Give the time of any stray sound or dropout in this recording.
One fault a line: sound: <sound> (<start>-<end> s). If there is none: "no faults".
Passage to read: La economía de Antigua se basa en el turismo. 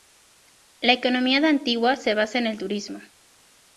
no faults